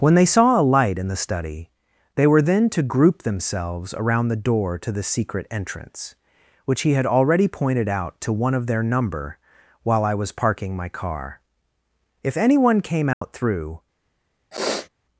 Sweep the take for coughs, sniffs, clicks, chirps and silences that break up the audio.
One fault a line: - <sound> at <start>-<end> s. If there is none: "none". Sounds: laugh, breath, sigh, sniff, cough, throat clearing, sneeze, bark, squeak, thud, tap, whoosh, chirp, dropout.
- dropout at 13.1-13.2 s
- sniff at 14.5-14.9 s